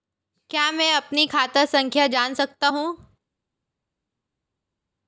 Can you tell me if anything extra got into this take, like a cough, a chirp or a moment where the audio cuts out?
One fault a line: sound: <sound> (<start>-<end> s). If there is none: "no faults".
no faults